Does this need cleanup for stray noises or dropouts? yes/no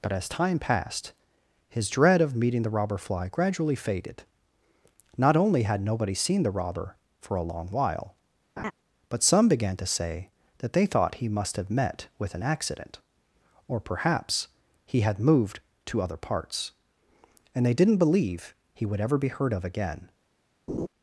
yes